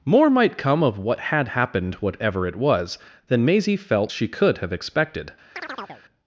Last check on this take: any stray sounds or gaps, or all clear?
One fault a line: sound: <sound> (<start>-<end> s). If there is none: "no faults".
sound: chirp (5.5-6.0 s)